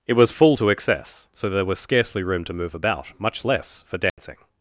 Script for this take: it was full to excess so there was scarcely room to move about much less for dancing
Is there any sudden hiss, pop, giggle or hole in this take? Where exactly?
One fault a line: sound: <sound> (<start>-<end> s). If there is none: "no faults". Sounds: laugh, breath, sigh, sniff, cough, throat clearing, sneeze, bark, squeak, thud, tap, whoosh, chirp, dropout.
sound: dropout (4.1-4.2 s)